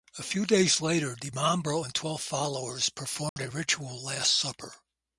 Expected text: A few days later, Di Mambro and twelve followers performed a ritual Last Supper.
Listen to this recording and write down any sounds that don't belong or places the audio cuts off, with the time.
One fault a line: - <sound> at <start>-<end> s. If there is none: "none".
- dropout at 3.3-3.4 s